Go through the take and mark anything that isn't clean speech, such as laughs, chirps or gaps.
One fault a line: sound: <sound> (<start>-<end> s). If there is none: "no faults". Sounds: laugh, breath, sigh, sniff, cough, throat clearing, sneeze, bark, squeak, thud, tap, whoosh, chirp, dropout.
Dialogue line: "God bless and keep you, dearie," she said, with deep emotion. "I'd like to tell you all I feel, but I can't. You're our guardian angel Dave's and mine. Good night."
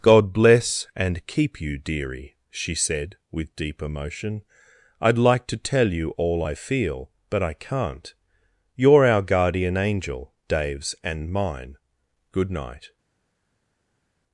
no faults